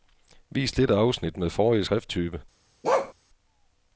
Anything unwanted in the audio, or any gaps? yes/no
yes